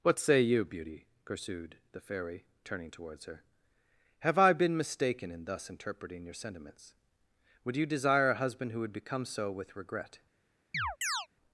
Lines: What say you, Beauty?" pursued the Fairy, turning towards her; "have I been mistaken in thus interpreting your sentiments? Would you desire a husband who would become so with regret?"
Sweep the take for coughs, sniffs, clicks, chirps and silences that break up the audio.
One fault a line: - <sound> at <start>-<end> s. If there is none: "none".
- chirp at 10.7-11.3 s